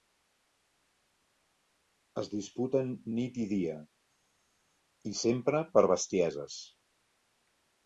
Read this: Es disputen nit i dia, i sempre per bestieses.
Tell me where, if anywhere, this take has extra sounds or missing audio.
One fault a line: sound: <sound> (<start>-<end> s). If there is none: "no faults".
no faults